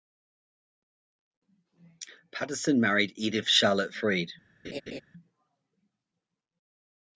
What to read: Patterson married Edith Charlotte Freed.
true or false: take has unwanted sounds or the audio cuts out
true